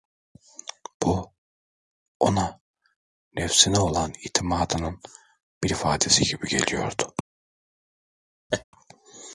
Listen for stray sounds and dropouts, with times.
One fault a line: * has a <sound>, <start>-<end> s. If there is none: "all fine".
* has a laugh, 8.5-8.6 s